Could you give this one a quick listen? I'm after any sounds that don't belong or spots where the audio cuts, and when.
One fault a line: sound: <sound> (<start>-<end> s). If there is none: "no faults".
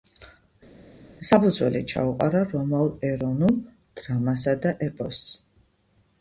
no faults